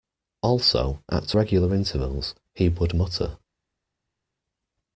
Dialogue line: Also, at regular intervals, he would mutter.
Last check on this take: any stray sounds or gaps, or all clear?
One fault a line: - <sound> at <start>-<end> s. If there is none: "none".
none